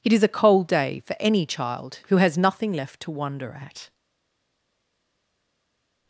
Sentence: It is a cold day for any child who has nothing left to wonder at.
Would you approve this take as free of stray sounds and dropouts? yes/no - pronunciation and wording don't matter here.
yes